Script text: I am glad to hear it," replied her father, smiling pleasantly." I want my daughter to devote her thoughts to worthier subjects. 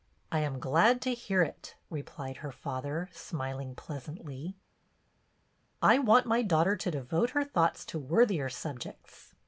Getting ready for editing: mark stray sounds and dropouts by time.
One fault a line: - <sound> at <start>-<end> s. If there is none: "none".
none